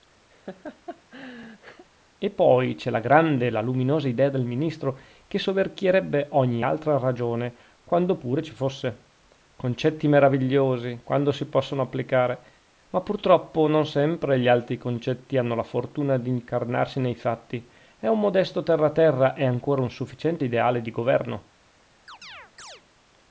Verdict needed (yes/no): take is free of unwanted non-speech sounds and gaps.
no